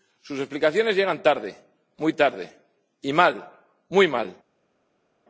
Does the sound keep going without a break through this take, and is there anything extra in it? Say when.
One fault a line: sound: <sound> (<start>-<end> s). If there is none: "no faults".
no faults